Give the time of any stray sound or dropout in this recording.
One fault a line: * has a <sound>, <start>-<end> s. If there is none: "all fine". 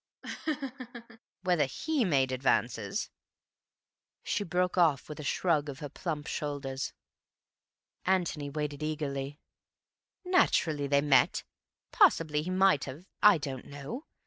* has a laugh, 0.2-1.2 s